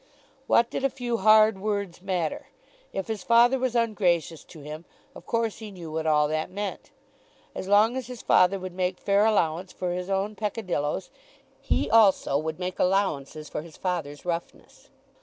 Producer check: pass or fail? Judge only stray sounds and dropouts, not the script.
pass